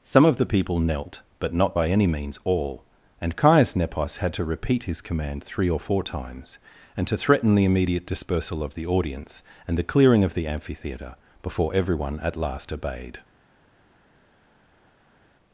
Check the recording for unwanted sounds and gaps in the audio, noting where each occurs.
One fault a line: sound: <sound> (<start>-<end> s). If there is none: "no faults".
no faults